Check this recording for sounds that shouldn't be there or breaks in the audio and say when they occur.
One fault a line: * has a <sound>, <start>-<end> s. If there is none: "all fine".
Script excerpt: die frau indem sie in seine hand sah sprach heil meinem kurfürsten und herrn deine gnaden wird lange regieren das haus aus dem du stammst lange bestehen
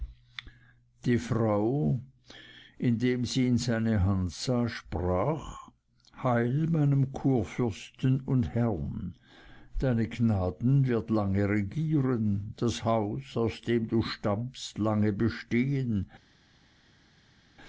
all fine